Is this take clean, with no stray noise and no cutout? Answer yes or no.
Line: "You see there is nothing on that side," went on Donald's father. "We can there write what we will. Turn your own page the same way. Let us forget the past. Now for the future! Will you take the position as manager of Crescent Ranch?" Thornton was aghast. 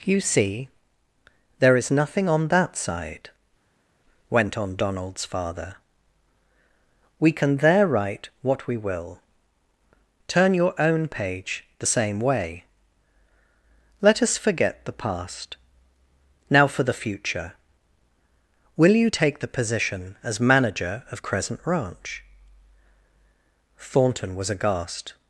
yes